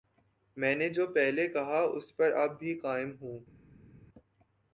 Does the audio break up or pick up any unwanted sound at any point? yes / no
no